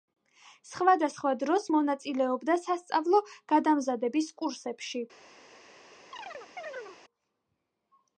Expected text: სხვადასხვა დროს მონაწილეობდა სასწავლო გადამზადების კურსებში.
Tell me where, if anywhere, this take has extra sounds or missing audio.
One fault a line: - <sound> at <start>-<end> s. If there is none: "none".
- chirp at 6.1-7.0 s